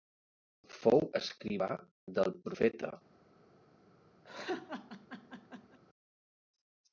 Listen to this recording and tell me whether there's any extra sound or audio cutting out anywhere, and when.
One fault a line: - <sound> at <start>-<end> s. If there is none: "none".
- laugh at 4.2-5.8 s